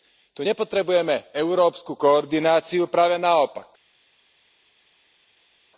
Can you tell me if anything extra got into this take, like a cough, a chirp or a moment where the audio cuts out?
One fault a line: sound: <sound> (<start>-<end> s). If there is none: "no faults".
no faults